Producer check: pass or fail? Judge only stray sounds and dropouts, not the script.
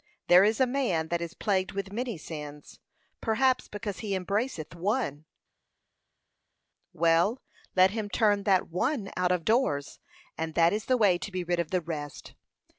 pass